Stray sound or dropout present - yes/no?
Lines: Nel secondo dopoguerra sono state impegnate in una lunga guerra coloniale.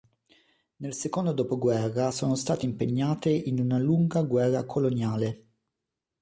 no